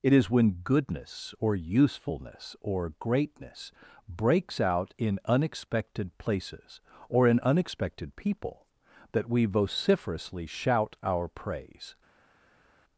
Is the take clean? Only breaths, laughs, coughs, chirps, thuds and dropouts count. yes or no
yes